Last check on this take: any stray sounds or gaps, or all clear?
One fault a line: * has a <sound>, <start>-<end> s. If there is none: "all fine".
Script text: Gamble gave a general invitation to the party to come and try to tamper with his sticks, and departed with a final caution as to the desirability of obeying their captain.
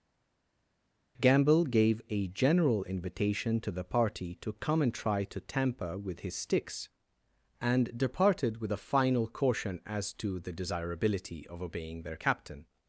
all fine